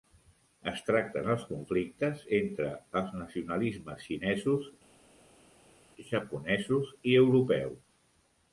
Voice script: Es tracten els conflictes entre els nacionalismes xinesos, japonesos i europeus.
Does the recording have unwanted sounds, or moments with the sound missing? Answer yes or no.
no